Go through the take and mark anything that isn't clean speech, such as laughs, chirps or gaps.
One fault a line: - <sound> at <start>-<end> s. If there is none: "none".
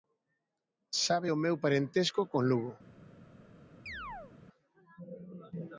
- chirp at 3.9-4.3 s